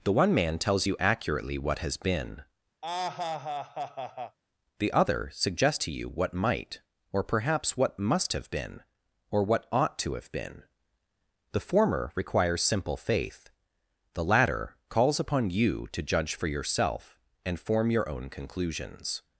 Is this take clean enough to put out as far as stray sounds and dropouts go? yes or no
no